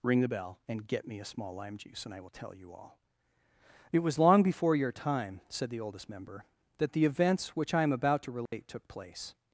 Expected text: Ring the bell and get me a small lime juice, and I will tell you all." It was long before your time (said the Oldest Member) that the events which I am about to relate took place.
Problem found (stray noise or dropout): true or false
true